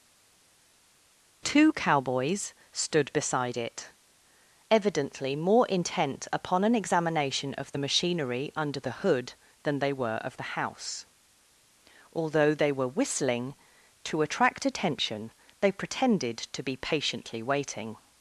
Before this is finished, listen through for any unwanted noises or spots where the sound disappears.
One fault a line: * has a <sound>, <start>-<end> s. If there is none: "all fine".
all fine